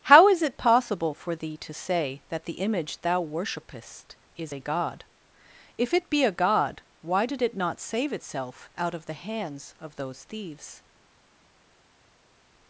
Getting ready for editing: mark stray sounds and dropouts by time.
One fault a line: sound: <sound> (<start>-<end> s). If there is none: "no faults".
no faults